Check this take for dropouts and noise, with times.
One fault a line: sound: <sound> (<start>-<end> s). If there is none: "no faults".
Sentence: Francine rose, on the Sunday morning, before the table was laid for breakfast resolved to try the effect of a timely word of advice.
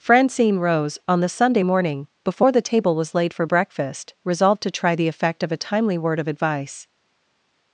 no faults